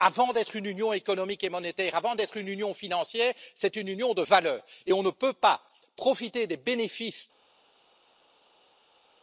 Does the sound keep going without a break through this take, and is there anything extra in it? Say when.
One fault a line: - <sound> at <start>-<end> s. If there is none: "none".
none